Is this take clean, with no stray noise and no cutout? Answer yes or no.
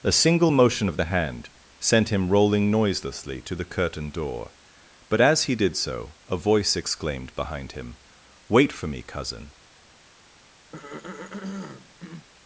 no